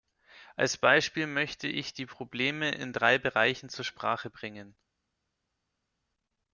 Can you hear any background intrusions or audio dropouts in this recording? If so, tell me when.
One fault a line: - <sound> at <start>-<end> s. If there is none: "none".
none